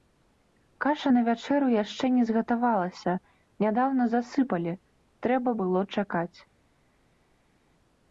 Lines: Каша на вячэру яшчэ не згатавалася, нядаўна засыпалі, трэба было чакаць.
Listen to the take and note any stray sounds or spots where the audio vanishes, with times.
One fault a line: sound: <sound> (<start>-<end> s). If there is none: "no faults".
no faults